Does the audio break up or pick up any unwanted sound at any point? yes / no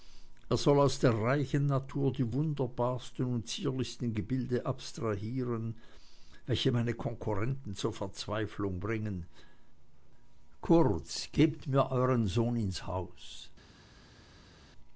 no